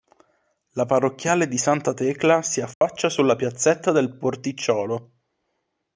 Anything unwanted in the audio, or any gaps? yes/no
yes